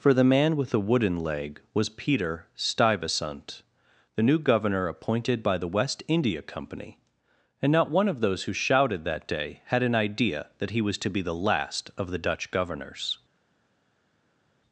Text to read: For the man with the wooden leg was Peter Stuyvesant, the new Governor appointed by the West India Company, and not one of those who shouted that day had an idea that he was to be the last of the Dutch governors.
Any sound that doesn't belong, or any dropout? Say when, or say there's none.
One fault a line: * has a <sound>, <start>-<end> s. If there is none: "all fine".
all fine